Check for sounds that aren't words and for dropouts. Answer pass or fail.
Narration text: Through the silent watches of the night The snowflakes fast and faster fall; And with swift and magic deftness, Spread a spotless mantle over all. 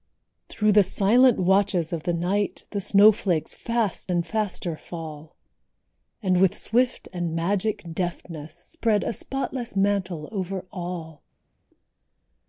pass